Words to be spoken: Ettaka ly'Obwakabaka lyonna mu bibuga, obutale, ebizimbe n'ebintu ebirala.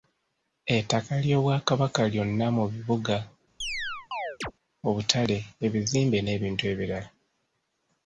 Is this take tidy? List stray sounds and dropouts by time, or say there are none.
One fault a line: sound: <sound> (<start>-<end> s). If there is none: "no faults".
sound: chirp (3.6-4.5 s)